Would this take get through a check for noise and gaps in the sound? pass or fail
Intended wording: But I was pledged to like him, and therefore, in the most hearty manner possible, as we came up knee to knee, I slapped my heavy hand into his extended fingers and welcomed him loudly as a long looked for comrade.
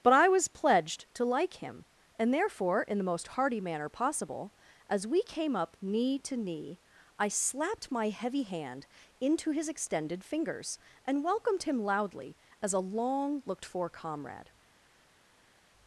pass